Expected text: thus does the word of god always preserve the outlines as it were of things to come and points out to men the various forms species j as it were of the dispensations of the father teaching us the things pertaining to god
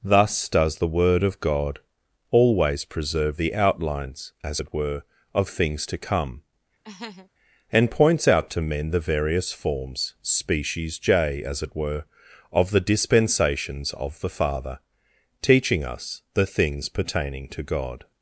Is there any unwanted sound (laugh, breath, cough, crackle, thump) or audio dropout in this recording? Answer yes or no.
yes